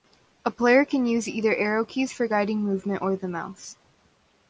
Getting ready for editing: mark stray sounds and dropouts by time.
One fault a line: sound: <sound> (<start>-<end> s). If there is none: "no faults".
no faults